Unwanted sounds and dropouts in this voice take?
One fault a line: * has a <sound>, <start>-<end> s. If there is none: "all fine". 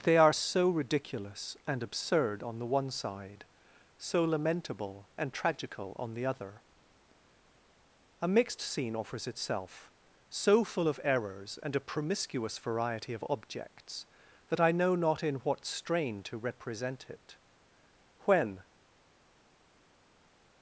all fine